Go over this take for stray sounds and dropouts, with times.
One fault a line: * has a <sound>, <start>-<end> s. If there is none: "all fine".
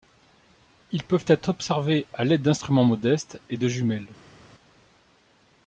all fine